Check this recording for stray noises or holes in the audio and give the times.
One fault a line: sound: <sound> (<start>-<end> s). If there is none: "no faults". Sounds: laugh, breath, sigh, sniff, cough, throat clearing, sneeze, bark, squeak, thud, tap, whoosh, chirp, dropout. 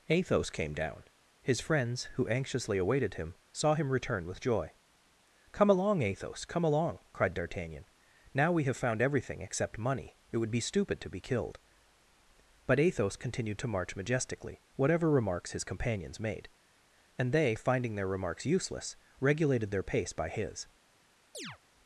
sound: chirp (21.3-21.6 s)